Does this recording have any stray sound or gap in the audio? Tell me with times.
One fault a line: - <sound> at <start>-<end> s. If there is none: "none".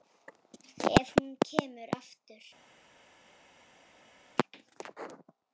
none